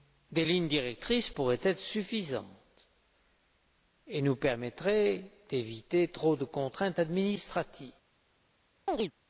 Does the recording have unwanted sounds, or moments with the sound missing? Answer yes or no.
yes